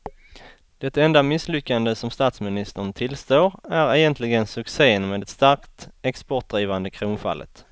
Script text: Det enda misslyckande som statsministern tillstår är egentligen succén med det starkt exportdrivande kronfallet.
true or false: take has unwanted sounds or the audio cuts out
false